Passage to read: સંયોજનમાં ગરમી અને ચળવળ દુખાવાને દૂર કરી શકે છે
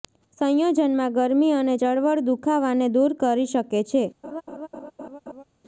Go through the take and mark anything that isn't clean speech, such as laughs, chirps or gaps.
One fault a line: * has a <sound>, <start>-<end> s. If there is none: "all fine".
* has a laugh, 4.2-5.4 s